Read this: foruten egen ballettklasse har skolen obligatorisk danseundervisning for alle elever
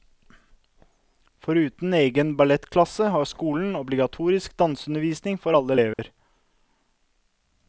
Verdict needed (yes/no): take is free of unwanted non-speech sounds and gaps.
no